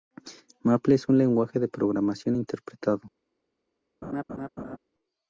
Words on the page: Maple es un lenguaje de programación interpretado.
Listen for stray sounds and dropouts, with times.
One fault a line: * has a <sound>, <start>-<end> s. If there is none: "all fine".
* has a laugh, 4.0-4.8 s